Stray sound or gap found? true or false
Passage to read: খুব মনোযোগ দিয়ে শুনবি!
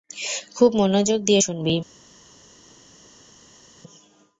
false